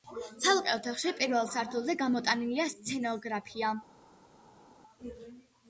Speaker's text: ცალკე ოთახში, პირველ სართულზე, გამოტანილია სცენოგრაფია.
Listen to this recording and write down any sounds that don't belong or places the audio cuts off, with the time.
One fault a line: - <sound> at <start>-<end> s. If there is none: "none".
none